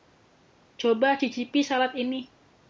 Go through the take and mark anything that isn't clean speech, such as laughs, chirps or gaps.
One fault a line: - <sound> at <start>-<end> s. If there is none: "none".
none